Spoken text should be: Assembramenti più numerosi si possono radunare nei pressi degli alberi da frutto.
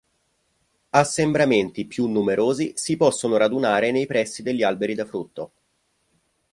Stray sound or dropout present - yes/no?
no